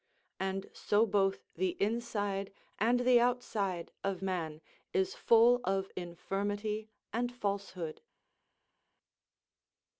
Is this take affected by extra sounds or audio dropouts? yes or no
no